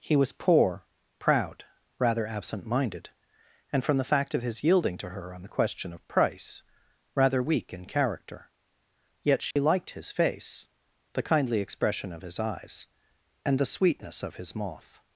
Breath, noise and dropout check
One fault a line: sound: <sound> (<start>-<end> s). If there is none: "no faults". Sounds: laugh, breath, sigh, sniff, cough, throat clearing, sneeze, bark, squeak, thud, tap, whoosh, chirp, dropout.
sound: dropout (9.5-9.6 s)